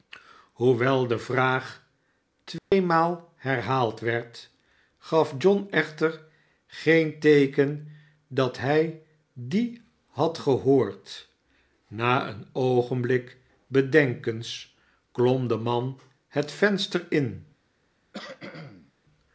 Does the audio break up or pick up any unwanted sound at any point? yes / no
yes